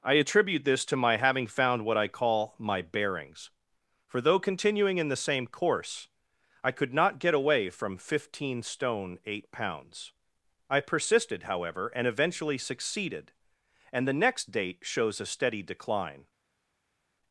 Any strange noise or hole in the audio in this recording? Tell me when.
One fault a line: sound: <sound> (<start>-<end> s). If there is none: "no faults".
no faults